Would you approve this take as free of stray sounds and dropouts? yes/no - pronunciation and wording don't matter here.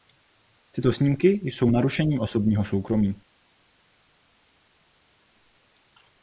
yes